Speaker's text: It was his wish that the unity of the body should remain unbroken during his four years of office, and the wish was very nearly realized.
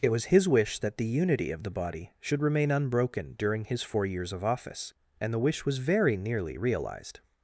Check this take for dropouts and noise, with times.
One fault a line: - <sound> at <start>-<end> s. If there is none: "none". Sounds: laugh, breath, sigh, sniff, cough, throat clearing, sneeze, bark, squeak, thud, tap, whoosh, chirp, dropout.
none